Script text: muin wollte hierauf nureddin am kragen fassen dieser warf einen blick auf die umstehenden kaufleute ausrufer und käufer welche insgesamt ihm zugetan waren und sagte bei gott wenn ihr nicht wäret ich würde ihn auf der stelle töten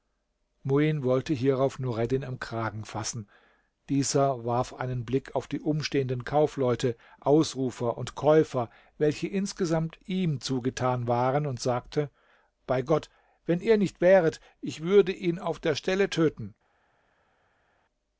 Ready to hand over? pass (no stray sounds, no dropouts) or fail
pass